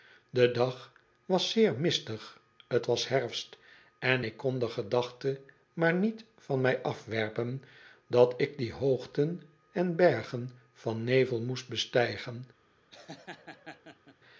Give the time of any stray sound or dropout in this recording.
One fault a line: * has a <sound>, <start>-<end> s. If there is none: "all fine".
* has a laugh, 12.9-14.2 s